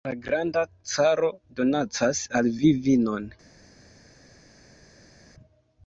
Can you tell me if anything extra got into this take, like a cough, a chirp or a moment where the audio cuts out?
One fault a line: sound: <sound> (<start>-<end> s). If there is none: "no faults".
no faults